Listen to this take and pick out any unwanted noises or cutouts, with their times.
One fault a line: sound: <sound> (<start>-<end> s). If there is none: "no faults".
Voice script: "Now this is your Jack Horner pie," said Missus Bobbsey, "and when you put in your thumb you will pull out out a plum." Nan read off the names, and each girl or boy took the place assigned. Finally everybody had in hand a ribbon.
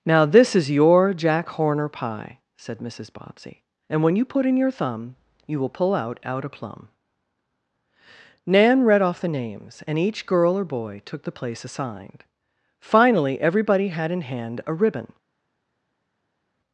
no faults